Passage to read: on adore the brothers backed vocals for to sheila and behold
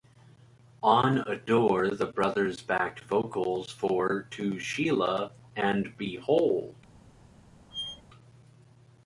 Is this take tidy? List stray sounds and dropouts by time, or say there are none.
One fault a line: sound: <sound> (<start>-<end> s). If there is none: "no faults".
sound: squeak (7.7-8.0 s)